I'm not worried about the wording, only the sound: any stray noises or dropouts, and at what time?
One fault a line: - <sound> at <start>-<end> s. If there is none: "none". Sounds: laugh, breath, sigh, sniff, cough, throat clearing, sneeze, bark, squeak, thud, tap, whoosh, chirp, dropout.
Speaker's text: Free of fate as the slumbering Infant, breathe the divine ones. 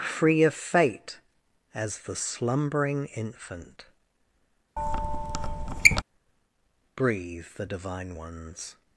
- squeak at 4.8-6.0 s